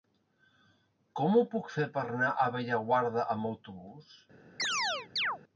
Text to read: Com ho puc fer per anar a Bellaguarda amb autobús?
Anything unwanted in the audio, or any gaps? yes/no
yes